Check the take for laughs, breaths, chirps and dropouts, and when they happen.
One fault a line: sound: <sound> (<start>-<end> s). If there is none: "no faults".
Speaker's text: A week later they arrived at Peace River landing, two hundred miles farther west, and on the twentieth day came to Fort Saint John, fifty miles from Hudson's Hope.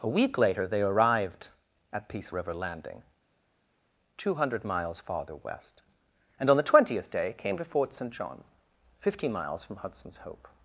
no faults